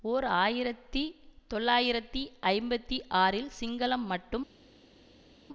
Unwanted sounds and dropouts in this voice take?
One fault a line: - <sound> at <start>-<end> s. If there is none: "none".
none